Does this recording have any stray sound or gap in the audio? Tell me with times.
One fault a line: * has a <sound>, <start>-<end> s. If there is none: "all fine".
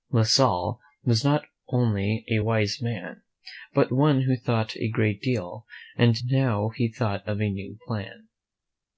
all fine